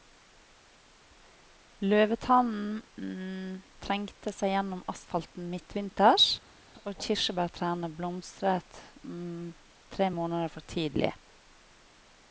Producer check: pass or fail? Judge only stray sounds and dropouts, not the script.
pass